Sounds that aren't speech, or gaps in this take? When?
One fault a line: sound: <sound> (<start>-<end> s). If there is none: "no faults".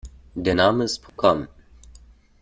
sound: dropout (1.1-1.2 s)